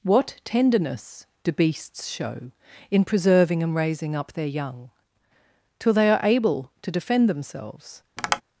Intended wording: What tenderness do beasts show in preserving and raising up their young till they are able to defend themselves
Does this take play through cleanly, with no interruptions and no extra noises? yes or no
no